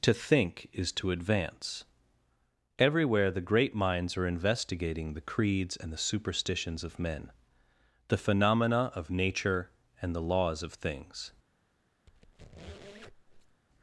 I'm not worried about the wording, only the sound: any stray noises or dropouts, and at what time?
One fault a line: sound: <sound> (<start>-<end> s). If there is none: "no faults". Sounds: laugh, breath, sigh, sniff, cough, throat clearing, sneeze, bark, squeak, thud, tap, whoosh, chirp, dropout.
sound: squeak (12.1-13.6 s)